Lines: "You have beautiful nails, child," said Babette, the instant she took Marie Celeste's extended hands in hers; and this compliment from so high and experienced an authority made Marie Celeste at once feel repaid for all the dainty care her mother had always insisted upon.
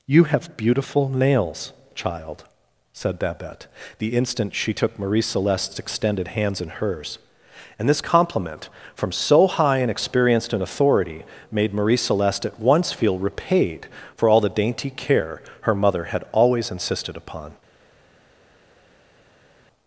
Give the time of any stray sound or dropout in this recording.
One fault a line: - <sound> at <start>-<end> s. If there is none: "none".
none